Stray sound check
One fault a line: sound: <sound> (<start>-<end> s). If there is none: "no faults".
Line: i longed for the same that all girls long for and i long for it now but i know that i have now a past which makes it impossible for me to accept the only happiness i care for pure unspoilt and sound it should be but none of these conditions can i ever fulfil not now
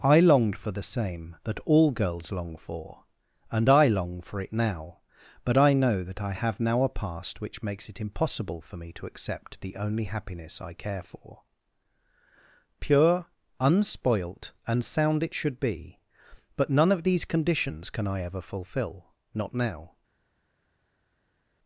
no faults